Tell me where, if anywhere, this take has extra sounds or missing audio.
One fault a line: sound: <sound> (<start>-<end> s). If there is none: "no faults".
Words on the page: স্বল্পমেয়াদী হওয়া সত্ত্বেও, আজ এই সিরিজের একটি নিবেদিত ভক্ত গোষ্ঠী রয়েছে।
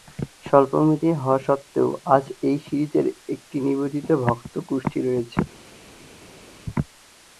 no faults